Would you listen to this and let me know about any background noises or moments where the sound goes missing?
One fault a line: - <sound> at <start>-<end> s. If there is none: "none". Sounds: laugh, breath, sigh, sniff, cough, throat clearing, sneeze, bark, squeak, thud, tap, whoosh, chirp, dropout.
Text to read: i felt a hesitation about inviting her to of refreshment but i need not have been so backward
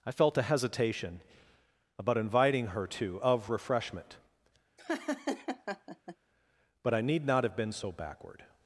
- laugh at 4.8-6.2 s